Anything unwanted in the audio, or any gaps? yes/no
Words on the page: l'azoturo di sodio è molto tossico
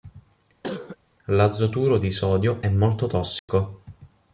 yes